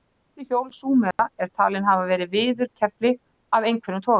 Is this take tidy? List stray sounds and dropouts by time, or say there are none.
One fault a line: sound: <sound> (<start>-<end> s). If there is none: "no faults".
sound: dropout (1.1-1.2 s)